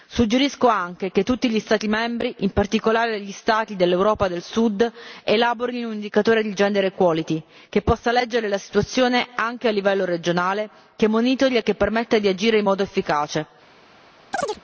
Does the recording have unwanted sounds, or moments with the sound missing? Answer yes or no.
yes